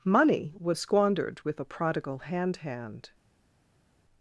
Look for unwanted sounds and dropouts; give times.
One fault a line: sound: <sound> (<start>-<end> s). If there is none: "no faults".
no faults